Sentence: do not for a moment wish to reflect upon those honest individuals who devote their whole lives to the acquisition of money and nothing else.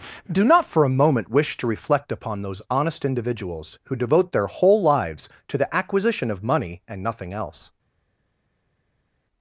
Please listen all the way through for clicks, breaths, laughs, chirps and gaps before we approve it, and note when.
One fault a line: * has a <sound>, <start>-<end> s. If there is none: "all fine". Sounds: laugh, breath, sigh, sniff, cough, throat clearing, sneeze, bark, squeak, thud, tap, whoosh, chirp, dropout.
all fine